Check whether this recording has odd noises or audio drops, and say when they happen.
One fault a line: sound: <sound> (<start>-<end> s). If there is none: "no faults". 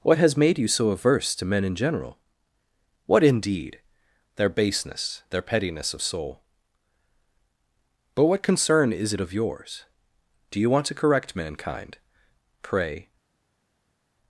no faults